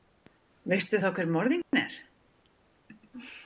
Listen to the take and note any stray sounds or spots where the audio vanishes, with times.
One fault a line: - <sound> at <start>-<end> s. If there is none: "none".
- dropout at 1.6-1.7 s